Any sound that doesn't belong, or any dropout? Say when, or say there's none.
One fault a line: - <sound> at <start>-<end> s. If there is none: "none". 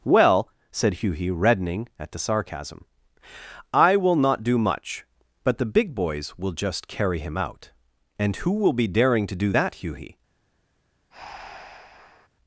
- breath at 11.1-12.3 s